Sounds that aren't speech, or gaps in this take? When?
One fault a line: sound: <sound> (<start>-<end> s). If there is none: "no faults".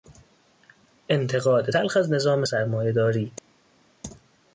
no faults